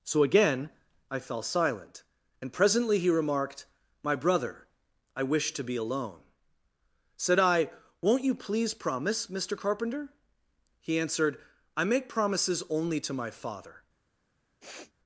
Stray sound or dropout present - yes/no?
yes